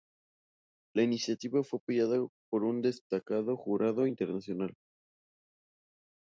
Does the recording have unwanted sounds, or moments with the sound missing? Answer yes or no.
no